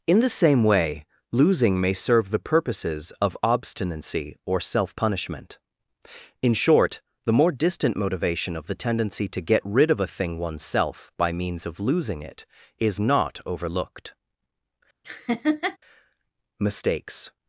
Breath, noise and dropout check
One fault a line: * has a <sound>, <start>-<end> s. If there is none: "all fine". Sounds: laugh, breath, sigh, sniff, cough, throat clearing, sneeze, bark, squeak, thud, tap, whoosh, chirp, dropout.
* has a laugh, 15.0-15.8 s